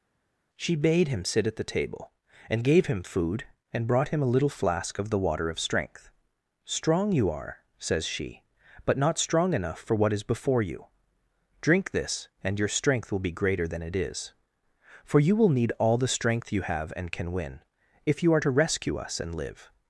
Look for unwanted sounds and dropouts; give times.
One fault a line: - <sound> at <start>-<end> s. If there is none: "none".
none